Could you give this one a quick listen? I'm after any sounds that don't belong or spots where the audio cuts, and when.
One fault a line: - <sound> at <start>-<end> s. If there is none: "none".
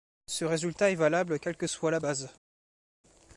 none